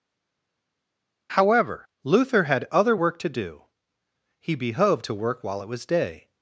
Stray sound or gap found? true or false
false